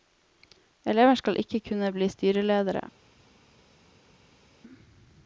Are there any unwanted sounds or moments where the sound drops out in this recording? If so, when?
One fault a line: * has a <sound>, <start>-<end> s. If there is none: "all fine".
all fine